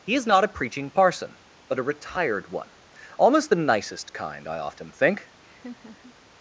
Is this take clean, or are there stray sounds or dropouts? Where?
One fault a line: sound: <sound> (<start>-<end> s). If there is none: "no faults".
sound: laugh (5.4-6.1 s)